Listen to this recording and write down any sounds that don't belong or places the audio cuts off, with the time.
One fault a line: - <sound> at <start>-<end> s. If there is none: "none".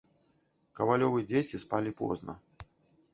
none